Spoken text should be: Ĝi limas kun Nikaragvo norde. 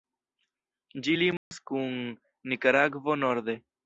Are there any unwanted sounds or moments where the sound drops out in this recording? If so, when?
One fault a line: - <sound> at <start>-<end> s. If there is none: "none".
- dropout at 1.4-1.5 s